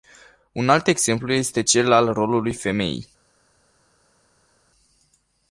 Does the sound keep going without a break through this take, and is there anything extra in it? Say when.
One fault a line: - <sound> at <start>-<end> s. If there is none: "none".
none